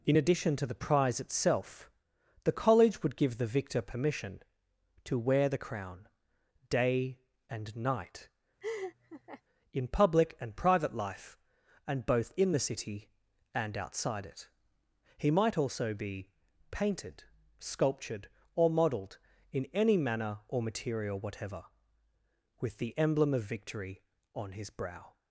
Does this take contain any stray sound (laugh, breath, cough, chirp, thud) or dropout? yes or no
yes